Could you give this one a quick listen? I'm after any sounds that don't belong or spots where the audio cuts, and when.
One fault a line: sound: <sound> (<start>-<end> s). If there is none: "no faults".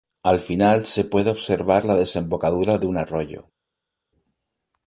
no faults